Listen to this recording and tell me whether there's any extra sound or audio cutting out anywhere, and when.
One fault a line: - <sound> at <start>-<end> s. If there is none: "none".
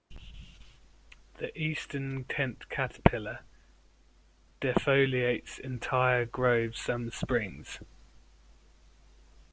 none